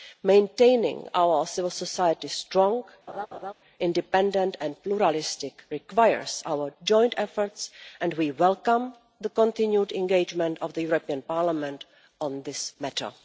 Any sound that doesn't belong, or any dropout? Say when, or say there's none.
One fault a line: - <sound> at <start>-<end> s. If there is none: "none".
- laugh at 3.1-3.5 s